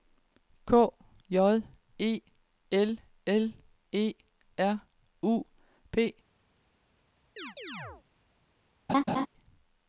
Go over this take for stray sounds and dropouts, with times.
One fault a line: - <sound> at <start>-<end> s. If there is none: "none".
- chirp at 7.4-8.0 s
- laugh at 8.9-9.3 s